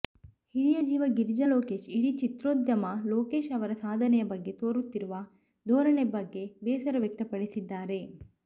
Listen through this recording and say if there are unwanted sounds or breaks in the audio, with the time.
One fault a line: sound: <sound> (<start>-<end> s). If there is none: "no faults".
no faults